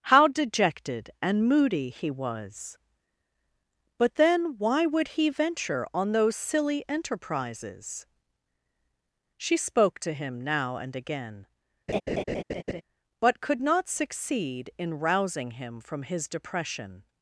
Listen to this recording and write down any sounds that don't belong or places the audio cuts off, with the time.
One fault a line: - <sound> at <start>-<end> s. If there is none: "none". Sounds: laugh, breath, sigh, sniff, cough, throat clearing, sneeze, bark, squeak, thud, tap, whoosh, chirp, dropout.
- laugh at 11.9-12.8 s